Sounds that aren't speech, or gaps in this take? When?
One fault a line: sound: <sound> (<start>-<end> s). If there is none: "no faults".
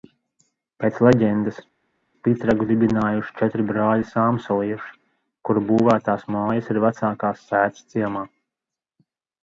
no faults